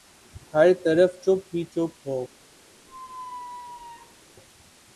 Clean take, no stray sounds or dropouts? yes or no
no